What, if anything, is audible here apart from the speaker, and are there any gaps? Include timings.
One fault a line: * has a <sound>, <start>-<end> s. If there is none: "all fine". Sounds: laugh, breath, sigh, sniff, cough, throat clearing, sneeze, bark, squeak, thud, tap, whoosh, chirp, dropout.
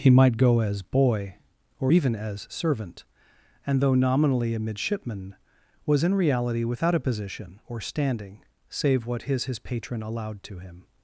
all fine